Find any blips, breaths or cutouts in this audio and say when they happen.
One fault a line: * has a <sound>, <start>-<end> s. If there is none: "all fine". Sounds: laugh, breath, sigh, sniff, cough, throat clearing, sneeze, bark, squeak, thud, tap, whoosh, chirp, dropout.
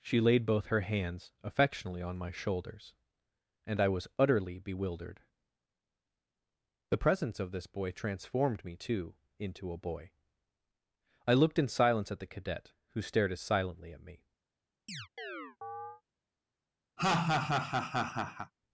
* has a chirp, 14.9-16.0 s
* has a laugh, 17.0-18.5 s